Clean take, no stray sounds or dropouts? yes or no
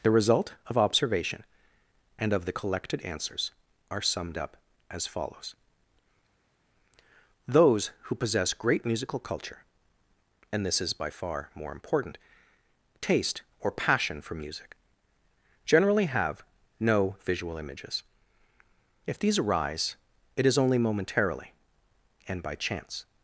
yes